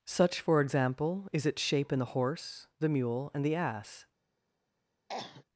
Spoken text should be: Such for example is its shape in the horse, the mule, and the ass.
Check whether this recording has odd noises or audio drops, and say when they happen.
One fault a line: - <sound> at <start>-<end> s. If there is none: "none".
- cough at 5.1-5.4 s